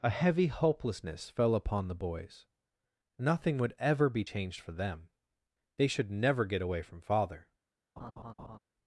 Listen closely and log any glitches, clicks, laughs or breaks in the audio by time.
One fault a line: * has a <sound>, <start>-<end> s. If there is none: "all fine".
* has a laugh, 8.0-8.6 s